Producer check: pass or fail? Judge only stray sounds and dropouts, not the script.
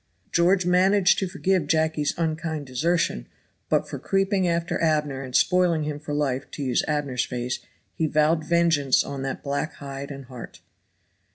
pass